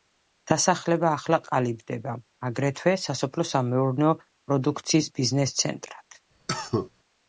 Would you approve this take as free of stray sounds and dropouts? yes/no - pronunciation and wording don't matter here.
no